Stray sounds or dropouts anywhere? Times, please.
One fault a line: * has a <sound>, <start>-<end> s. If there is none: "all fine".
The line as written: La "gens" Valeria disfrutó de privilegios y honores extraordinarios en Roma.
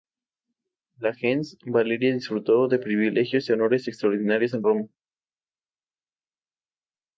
all fine